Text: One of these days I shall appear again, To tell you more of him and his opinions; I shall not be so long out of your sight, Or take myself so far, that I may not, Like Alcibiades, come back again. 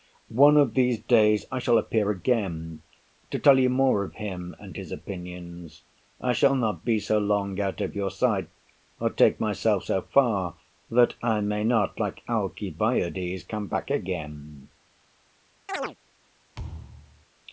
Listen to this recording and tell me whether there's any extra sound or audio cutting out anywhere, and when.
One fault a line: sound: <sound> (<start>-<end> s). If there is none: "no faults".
sound: chirp (15.7-16.0 s)
sound: thud (16.6-17.3 s)